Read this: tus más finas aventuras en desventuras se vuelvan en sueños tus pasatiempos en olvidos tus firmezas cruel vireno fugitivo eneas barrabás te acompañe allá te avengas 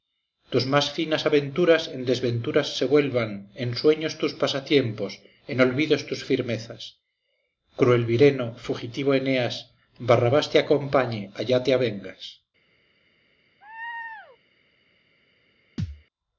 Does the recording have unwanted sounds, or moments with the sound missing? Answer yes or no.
yes